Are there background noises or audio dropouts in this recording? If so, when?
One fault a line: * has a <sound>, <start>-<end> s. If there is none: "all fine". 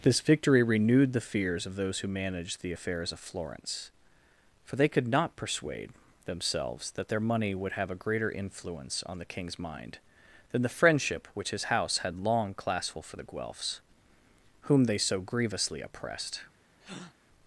* has a breath, 16.8-17.1 s